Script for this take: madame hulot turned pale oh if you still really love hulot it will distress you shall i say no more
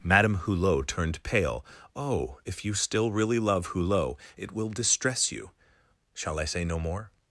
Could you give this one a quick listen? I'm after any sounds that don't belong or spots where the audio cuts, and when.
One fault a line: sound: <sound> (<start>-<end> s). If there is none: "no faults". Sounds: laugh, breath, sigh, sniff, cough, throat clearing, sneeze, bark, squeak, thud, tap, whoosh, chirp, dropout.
no faults